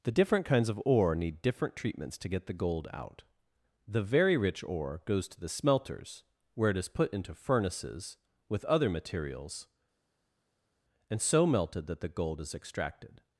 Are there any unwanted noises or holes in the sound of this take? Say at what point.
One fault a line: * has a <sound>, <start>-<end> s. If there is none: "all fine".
all fine